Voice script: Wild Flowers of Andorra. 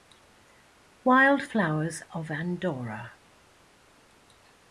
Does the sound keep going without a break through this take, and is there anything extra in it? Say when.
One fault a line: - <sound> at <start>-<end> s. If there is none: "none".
none